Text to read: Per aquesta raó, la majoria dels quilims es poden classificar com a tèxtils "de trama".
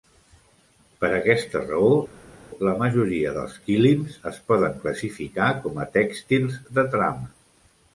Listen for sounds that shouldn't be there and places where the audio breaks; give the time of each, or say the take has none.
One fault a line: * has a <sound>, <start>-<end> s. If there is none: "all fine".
all fine